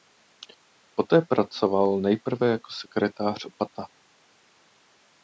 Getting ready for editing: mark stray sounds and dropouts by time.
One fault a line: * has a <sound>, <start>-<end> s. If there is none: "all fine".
all fine